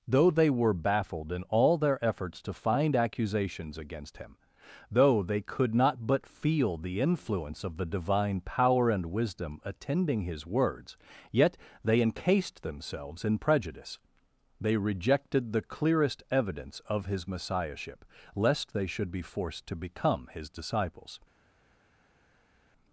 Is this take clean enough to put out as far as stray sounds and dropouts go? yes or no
yes